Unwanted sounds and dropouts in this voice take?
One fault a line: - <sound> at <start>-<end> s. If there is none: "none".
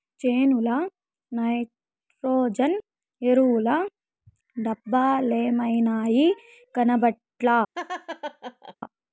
- laugh at 7.7-8.7 s